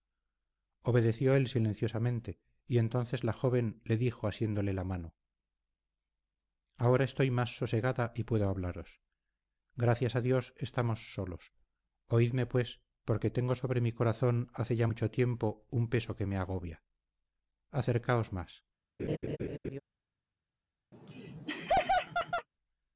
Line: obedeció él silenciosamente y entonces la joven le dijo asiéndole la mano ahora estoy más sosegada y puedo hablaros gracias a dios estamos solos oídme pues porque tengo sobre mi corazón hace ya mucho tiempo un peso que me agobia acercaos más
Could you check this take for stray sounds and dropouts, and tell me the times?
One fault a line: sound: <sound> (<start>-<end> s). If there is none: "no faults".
sound: laugh (19.0-19.8 s)
sound: laugh (20.9-22.5 s)